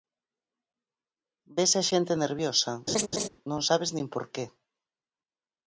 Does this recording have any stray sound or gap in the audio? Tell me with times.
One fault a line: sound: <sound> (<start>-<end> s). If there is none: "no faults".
sound: laugh (2.9-3.3 s)